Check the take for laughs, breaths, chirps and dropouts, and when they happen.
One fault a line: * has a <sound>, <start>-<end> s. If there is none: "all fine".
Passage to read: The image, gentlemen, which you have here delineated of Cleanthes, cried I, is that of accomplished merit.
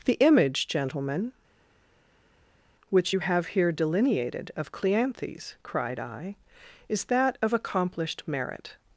all fine